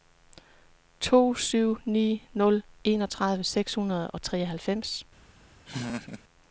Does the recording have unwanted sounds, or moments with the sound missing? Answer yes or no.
yes